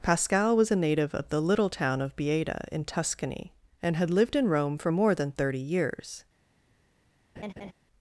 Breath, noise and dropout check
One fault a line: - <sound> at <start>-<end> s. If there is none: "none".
- laugh at 7.4-7.7 s